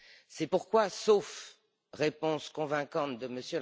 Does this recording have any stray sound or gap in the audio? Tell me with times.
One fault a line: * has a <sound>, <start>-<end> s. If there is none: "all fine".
all fine